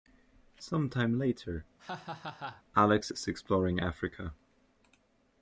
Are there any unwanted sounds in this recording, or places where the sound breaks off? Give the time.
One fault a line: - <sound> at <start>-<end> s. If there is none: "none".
- laugh at 1.8-2.6 s